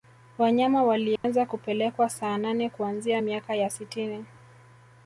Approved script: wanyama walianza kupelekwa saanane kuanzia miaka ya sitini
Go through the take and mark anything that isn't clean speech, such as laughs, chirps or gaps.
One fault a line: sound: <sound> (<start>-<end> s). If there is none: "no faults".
sound: dropout (1.2-1.2 s)